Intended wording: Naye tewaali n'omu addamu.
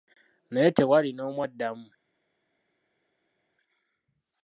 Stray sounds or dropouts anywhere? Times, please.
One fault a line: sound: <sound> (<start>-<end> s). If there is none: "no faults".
no faults